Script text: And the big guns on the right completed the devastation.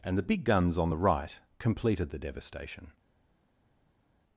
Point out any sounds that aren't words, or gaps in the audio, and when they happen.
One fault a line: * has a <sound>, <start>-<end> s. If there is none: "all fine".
all fine